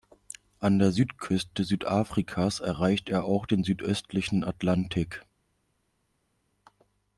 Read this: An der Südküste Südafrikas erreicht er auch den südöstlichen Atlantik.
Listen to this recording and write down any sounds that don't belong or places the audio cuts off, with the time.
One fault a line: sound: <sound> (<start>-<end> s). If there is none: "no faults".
no faults